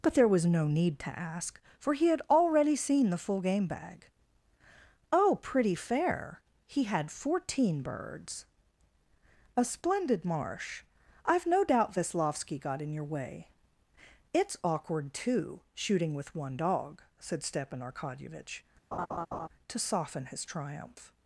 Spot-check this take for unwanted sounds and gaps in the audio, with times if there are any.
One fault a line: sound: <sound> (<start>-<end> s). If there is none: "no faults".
sound: laugh (18.9-19.5 s)